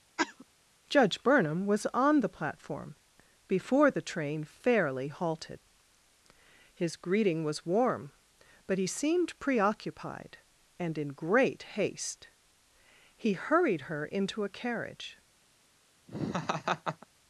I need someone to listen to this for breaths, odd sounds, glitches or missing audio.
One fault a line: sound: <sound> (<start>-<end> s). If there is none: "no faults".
sound: cough (0.2-0.4 s)
sound: laugh (16.1-17.1 s)